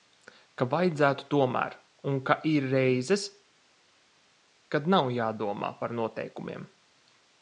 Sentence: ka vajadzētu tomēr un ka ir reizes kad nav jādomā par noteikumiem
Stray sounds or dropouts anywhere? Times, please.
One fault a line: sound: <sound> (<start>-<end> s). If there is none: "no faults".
no faults